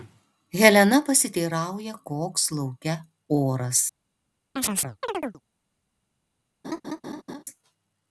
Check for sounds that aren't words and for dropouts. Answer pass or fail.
fail